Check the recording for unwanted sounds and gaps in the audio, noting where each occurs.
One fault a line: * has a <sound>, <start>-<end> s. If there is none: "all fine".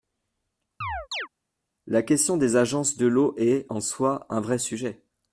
* has a chirp, 0.8-1.3 s